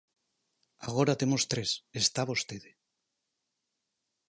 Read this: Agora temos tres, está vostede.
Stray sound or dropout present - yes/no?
no